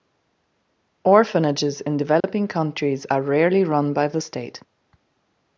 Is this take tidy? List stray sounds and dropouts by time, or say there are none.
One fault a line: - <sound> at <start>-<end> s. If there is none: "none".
- dropout at 2.2-2.2 s